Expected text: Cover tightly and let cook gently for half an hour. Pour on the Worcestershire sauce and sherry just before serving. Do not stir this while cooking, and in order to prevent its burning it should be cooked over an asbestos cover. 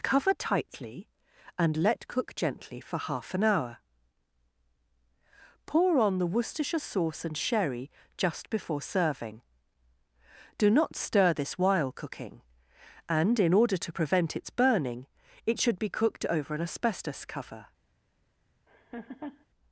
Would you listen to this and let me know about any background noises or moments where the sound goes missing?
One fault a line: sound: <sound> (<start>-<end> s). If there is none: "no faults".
sound: laugh (18.7-19.5 s)